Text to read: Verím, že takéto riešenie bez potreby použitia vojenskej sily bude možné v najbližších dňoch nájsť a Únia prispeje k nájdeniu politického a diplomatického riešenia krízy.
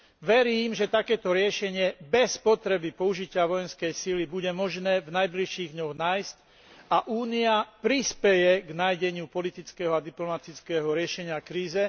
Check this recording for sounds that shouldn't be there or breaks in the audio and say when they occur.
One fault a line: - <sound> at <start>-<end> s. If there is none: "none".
none